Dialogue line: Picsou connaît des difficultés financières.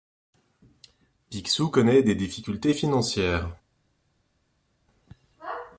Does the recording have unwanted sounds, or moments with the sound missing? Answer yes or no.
no